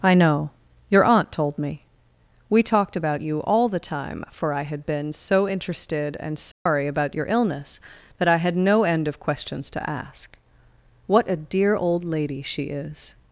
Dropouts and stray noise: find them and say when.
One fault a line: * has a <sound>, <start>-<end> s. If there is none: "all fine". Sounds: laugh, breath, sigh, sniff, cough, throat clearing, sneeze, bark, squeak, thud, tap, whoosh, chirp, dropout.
* has a dropout, 6.5-6.7 s